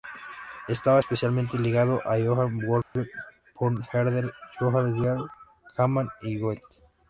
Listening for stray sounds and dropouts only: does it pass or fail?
fail